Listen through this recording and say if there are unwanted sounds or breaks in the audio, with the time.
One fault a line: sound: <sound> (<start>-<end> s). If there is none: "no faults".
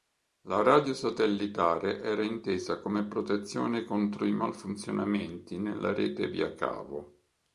no faults